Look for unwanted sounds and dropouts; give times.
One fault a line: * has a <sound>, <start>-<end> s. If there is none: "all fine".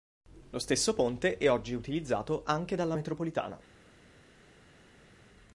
all fine